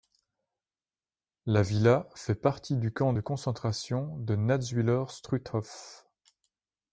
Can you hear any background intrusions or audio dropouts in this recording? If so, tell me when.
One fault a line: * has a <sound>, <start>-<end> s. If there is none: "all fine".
all fine